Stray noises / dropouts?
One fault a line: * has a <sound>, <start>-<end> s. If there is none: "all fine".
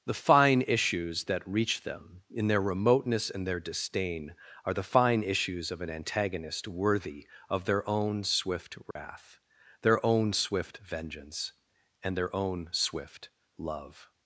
* has a dropout, 8.9-9.0 s